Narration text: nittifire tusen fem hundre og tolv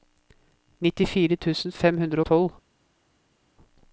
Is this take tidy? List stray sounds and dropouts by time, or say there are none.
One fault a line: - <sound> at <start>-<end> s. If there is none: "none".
none